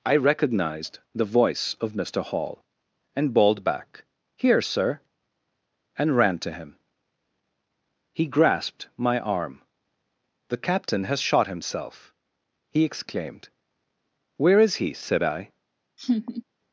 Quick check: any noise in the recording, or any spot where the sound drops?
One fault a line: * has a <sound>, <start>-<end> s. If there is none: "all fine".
* has a laugh, 16.0-16.4 s